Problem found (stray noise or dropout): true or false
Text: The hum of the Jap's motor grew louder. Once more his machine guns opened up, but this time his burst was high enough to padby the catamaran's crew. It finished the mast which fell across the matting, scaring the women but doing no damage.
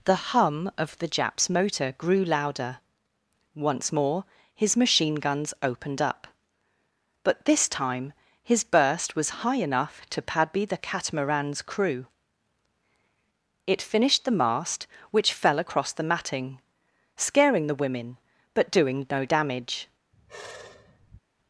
true